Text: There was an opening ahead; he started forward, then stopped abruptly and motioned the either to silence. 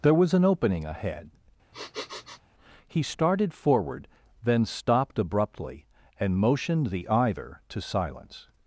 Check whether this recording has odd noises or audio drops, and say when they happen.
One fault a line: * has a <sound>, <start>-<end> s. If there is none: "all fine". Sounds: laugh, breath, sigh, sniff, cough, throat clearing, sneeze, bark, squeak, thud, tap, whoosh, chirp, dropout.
* has a sniff, 1.7-2.4 s